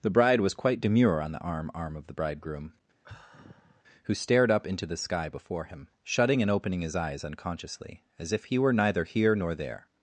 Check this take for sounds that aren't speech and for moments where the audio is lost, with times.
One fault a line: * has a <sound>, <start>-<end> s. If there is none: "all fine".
* has a sigh, 3.0-3.8 s